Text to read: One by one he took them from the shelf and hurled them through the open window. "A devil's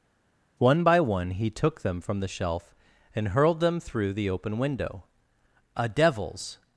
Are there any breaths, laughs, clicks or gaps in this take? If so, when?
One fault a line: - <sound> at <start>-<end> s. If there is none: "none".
none